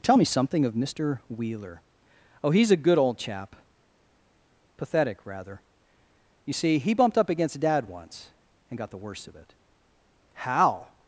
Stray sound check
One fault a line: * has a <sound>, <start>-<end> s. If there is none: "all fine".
all fine